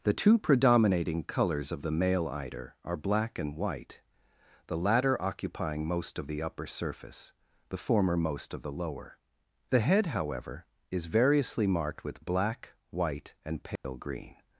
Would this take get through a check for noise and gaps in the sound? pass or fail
fail